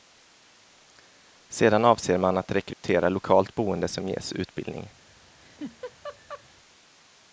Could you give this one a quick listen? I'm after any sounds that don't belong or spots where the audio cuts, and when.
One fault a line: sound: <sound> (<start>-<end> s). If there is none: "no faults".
sound: dropout (2.7-2.8 s)
sound: laugh (5.4-6.4 s)